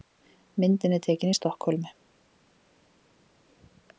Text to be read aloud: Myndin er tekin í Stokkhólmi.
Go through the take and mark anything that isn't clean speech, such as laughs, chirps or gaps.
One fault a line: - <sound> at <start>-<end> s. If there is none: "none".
none